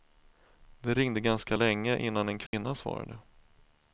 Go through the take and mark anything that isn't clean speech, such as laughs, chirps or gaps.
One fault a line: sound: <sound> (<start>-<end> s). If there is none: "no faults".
sound: dropout (2.5-2.5 s)